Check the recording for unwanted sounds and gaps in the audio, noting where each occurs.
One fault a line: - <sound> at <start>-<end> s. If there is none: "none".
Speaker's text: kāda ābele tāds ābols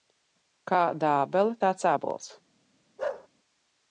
- bark at 3.0-3.3 s